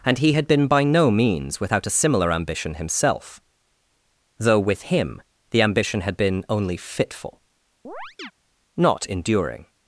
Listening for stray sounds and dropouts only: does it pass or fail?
fail